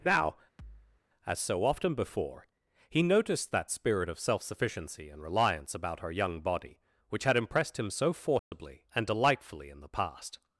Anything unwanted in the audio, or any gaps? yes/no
yes